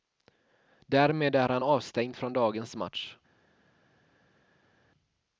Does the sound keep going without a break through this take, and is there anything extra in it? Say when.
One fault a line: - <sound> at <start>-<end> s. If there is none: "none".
none